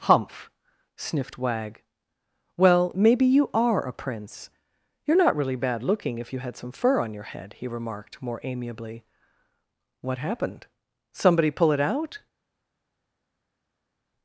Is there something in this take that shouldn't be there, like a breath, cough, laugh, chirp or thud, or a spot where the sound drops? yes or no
no